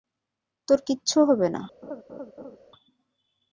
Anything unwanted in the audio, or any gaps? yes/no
yes